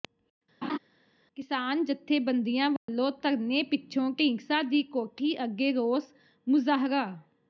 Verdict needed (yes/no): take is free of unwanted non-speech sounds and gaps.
no